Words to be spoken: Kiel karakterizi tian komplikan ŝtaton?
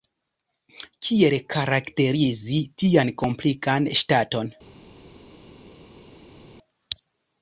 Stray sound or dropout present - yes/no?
no